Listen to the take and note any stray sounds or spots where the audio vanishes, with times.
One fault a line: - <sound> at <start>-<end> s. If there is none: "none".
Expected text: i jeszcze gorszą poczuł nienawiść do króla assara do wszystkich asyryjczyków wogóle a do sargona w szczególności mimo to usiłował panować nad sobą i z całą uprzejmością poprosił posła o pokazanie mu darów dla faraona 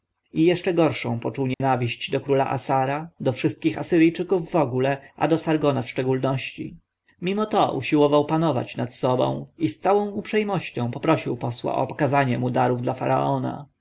- dropout at 1.5-1.6 s